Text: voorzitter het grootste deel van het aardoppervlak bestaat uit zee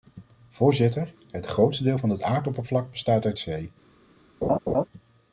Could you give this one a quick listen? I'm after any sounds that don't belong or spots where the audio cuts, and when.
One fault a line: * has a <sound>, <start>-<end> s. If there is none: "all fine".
* has a laugh, 4.4-4.9 s